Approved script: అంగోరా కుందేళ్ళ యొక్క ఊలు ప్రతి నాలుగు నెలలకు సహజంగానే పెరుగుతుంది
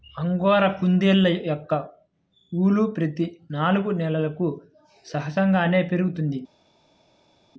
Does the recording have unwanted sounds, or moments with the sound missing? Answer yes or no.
no